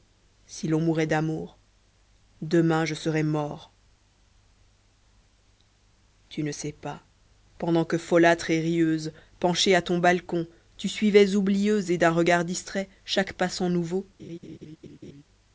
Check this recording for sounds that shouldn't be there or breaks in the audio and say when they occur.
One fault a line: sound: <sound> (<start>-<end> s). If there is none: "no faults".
sound: laugh (14.2-15.2 s)